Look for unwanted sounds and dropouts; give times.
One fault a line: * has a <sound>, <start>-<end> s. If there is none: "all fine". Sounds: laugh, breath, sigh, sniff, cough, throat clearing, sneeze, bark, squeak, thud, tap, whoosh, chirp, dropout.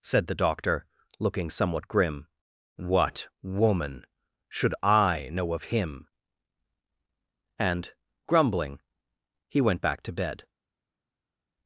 all fine